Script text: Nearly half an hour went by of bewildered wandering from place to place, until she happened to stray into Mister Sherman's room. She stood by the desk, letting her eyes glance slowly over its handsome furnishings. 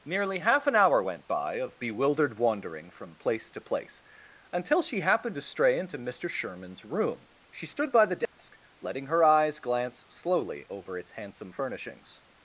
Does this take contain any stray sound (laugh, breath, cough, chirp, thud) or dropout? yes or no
yes